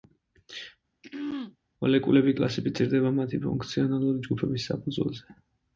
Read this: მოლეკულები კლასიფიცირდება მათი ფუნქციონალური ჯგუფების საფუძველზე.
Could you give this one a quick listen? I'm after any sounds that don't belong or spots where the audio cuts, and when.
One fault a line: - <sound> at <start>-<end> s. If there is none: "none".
- throat clearing at 1.0-1.6 s